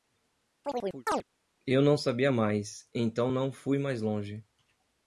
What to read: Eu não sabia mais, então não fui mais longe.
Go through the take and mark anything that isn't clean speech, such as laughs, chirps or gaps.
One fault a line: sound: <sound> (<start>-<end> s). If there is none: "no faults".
sound: chirp (0.6-1.2 s)